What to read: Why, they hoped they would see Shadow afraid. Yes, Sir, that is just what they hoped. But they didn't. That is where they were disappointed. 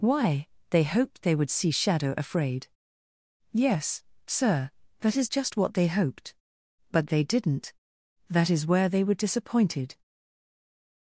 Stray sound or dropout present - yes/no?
no